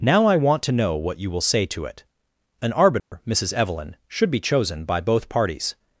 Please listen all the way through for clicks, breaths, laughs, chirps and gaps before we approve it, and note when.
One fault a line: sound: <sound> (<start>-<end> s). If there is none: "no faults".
sound: dropout (3.0-3.1 s)